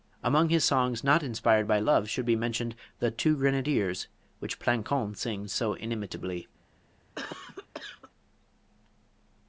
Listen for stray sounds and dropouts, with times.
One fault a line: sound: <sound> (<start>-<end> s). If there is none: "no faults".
sound: cough (7.1-8.1 s)